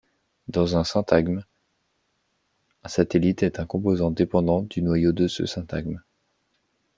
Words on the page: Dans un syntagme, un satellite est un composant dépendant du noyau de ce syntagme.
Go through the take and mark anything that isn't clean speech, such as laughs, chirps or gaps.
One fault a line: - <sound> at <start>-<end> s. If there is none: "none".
none